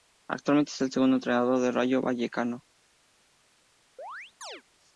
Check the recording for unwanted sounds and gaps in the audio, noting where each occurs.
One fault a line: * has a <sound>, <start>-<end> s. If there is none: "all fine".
* has a chirp, 4.0-4.6 s